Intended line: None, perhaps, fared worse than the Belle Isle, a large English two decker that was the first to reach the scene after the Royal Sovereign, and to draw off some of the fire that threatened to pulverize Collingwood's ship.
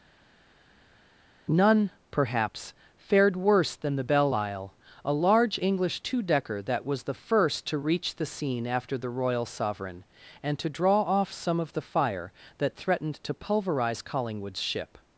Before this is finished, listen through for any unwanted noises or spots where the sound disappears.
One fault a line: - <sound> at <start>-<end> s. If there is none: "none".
none